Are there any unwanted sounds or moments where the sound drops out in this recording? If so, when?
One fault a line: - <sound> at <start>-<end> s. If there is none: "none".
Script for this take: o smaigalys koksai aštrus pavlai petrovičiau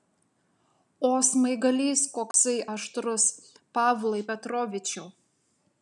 - dropout at 2.3-2.3 s